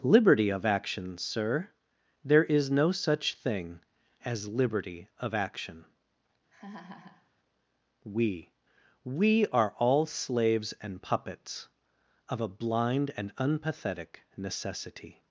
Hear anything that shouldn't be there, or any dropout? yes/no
yes